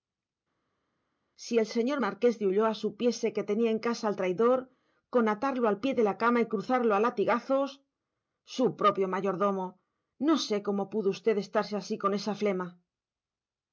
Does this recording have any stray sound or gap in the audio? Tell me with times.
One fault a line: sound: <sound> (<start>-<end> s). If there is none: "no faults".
no faults